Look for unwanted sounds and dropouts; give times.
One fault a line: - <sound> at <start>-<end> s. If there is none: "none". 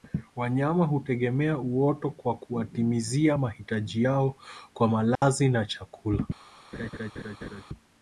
- dropout at 5.2-5.2 s
- laugh at 6.7-7.6 s